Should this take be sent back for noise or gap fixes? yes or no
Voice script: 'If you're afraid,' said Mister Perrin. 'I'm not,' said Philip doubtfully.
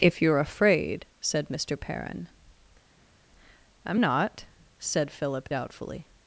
no